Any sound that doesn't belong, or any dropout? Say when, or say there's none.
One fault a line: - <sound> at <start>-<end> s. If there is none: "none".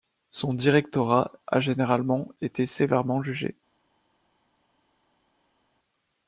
none